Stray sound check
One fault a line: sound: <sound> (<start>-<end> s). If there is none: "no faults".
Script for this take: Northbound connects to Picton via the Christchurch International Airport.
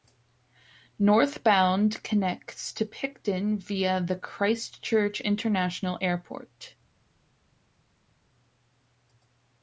no faults